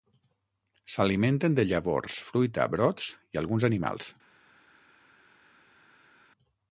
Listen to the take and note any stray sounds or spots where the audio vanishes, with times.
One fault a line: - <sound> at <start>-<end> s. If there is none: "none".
none